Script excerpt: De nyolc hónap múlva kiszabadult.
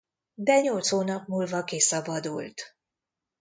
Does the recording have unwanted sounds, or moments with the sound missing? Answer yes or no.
no